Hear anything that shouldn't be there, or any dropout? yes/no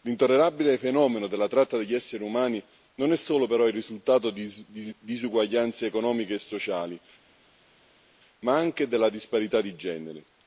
no